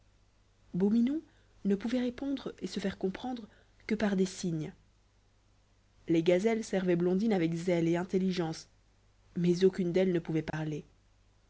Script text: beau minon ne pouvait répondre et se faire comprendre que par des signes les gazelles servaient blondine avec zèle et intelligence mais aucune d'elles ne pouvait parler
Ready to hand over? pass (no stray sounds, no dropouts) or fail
fail